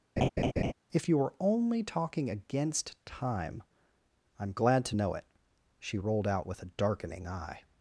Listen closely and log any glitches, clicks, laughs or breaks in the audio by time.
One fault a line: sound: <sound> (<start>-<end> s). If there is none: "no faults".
sound: laugh (0.2-0.7 s)